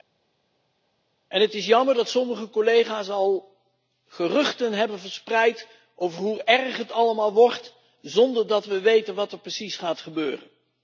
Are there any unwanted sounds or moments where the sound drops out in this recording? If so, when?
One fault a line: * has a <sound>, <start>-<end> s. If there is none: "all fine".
all fine